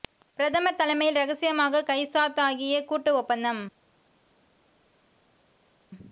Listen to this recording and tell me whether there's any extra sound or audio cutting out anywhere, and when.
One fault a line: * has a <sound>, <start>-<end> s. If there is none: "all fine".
all fine